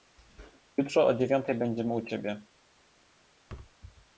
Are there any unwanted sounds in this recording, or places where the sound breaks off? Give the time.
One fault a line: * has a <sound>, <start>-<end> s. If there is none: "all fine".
* has a thud, 3.5-3.8 s